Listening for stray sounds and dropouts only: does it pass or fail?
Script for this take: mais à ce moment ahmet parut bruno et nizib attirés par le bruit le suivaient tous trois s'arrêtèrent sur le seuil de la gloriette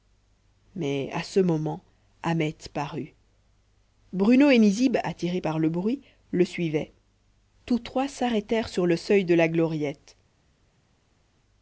pass